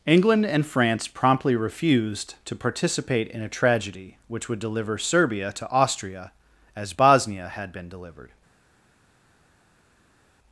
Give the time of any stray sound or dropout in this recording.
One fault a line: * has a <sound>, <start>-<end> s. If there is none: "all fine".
all fine